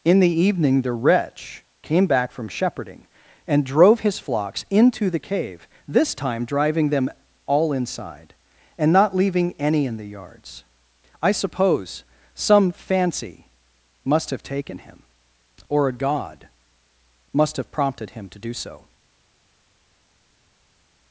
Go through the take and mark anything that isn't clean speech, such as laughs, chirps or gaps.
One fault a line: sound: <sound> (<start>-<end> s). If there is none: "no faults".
no faults